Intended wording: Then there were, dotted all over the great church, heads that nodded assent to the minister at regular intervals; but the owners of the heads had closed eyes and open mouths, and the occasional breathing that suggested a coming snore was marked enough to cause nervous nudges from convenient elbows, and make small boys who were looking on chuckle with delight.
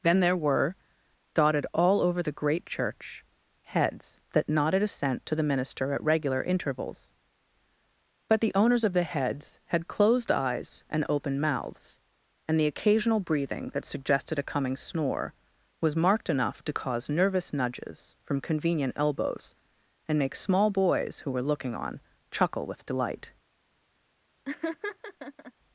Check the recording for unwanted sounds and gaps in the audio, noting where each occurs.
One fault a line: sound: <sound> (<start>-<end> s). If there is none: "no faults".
sound: laugh (24.4-25.5 s)